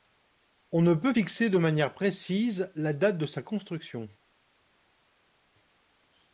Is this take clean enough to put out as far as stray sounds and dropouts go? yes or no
yes